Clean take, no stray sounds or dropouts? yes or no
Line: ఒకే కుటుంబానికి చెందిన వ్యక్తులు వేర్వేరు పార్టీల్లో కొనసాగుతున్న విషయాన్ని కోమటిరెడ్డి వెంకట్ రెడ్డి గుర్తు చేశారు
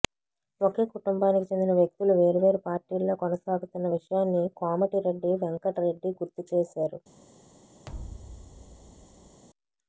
no